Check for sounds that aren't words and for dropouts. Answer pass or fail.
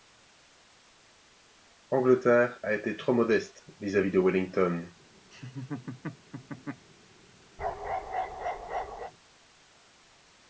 fail